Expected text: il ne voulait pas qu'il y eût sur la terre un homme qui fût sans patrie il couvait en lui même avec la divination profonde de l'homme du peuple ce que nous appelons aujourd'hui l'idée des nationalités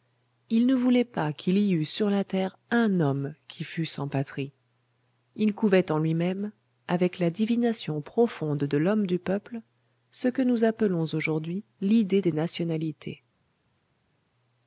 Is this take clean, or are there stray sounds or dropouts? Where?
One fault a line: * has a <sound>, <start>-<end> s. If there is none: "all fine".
all fine